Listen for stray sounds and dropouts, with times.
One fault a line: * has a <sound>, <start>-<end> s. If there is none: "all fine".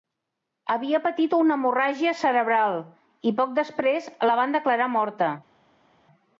all fine